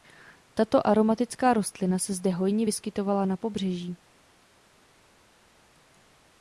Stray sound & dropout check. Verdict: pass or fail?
pass